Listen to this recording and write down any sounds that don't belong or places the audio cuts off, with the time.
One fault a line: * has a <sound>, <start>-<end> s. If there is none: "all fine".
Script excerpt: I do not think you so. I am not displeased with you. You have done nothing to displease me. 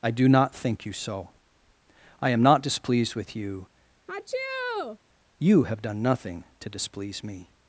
* has a sneeze, 4.1-5.0 s